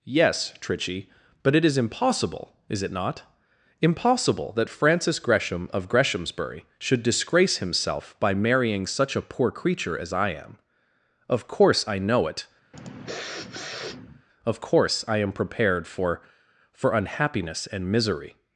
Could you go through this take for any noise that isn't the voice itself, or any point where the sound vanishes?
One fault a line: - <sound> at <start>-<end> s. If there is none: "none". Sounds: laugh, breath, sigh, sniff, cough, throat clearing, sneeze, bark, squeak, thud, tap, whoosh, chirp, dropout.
- sniff at 12.7-14.3 s